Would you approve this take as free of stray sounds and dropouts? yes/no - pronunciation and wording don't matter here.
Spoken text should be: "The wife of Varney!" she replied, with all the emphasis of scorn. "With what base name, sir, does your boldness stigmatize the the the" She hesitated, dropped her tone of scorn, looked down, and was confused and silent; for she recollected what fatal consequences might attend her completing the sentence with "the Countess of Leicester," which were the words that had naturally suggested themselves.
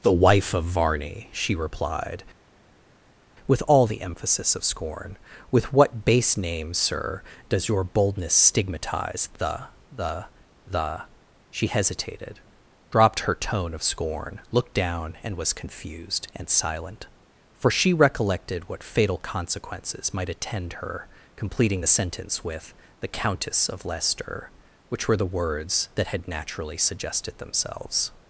yes